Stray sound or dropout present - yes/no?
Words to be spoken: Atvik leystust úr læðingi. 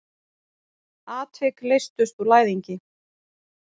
no